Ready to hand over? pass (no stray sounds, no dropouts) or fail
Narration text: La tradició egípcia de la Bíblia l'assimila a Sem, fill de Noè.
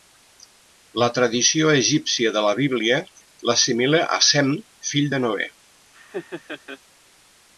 fail